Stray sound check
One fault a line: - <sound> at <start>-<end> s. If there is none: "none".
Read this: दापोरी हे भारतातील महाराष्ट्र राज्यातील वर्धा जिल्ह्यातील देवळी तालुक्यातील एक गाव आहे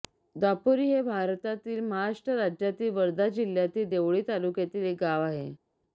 none